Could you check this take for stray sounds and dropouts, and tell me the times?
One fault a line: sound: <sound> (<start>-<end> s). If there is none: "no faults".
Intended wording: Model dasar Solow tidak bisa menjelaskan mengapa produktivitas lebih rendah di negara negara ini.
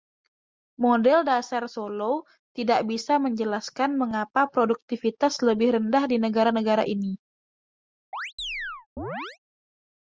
sound: chirp (8.1-9.4 s)